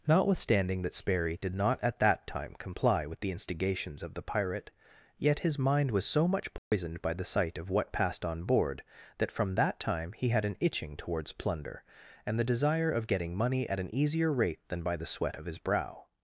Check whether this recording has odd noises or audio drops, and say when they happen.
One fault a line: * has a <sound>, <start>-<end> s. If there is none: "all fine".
* has a dropout, 6.6-6.7 s